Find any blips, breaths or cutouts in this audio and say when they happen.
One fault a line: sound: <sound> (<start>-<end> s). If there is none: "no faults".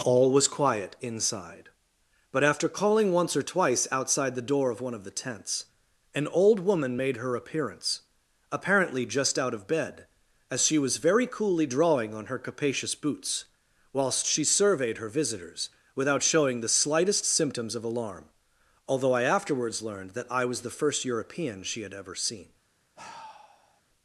sound: sigh (23.0-23.8 s)